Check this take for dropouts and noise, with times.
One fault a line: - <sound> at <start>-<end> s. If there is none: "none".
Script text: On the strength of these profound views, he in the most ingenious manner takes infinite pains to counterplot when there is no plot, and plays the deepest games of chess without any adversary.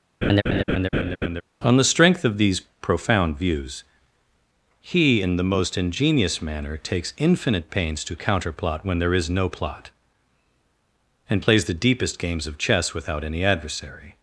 - laugh at 0.2-1.4 s